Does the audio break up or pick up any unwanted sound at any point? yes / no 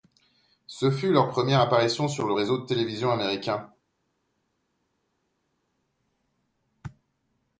no